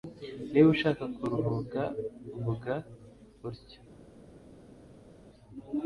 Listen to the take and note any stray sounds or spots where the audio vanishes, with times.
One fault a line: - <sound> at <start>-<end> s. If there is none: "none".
none